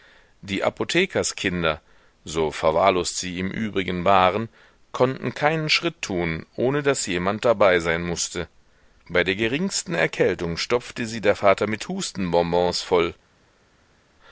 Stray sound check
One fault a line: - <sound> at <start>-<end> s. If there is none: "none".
none